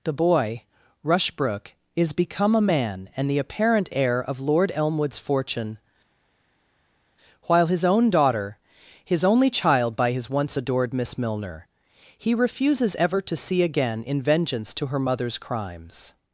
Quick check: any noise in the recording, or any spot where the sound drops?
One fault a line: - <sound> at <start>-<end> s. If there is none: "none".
none